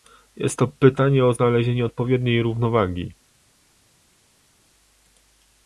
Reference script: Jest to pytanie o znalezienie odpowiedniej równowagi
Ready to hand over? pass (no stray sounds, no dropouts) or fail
pass